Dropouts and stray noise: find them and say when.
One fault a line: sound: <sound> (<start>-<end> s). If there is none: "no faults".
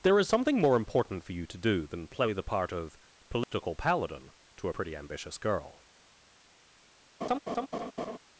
sound: dropout (3.4-3.5 s)
sound: laugh (7.2-8.2 s)